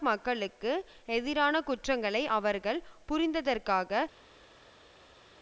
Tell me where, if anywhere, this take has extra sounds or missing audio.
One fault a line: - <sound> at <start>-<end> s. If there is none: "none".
none